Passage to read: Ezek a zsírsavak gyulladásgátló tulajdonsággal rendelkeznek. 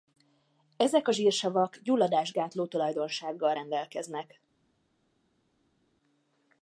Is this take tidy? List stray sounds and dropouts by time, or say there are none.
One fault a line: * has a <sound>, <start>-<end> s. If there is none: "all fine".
all fine